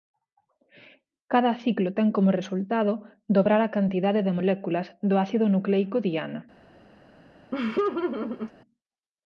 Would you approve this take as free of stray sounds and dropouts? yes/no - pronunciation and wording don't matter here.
no